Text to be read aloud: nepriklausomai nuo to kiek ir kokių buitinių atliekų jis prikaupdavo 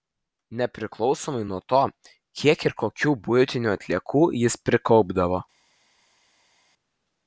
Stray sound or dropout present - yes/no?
no